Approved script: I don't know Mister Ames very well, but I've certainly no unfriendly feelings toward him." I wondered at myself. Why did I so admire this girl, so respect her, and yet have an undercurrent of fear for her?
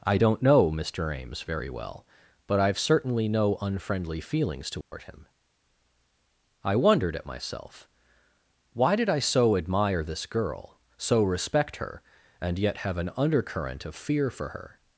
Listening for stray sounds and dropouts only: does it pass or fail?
fail